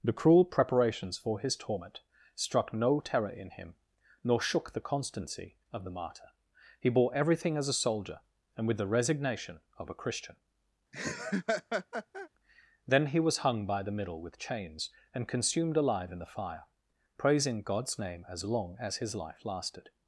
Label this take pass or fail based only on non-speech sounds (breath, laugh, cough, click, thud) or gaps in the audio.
fail